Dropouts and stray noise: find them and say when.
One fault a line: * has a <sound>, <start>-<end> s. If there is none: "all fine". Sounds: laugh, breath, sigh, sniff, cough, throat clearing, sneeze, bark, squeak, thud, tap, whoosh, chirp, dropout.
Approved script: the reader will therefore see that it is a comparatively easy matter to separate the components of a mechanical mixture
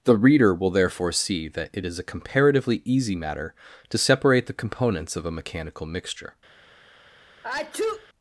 * has a sneeze, 7.4-8.1 s